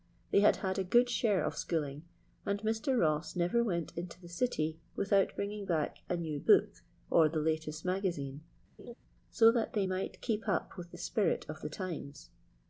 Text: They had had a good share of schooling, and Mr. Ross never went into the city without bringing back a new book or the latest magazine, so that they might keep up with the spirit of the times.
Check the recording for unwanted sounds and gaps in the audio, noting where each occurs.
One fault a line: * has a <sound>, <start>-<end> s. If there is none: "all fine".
* has a laugh, 8.8-8.9 s